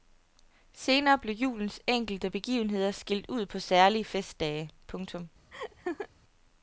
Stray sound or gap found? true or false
true